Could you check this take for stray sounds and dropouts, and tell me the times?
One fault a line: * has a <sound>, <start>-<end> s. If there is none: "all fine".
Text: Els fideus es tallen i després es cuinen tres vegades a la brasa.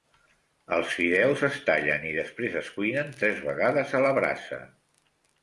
all fine